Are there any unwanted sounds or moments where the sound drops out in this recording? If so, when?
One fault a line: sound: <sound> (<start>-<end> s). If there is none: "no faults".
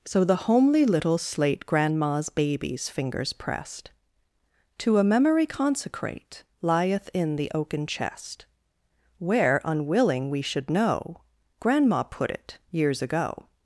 no faults